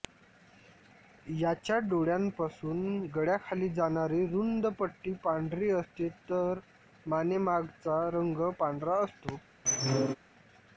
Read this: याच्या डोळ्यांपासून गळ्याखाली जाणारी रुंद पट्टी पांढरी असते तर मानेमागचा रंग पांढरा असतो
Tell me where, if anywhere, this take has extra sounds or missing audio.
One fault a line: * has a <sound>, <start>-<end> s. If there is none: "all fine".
* has a squeak, 9.7-10.2 s